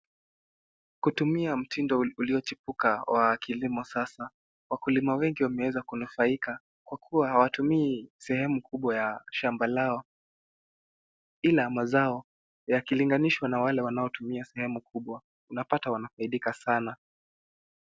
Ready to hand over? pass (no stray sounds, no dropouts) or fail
pass